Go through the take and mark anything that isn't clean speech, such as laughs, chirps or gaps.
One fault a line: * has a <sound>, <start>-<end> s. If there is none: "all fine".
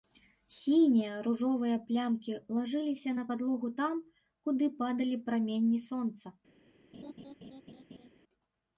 * has a laugh, 6.9-8.1 s